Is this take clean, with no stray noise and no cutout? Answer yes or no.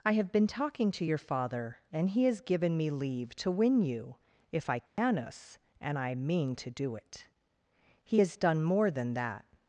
no